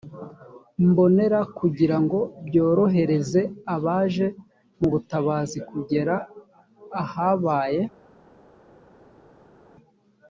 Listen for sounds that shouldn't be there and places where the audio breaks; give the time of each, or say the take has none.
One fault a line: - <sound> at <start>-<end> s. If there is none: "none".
none